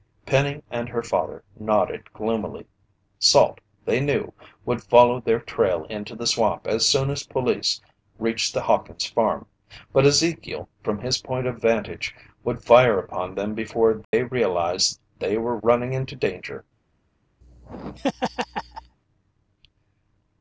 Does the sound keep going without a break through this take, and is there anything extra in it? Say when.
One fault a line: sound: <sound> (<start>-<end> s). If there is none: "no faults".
sound: dropout (14.0-14.1 s)
sound: laugh (17.4-19.0 s)